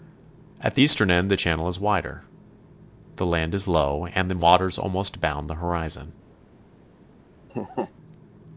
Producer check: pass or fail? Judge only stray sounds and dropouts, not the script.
fail